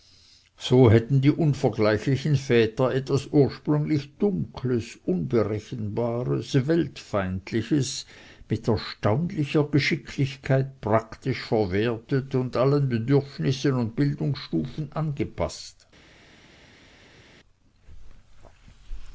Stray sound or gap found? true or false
false